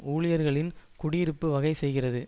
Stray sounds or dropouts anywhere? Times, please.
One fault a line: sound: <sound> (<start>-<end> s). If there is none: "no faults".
no faults